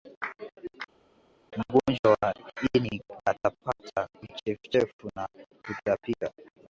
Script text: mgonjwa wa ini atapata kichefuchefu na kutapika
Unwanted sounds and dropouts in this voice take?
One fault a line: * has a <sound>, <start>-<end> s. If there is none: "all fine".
all fine